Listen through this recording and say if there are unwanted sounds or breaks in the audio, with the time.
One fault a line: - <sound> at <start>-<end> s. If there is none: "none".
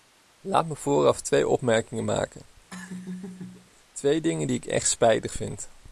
- laugh at 2.7-3.7 s